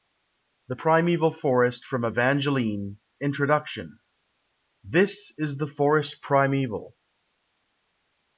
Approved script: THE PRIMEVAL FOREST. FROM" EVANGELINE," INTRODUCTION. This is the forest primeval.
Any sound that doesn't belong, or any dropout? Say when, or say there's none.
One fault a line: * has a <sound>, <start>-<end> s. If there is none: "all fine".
all fine